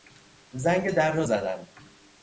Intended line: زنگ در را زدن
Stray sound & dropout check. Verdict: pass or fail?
pass